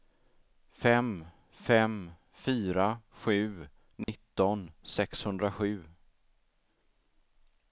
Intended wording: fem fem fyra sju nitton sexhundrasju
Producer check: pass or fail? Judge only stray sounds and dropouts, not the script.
fail